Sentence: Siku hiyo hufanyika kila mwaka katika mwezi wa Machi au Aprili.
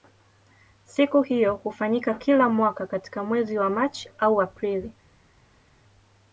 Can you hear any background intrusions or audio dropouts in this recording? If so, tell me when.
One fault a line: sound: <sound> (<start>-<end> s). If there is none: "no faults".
no faults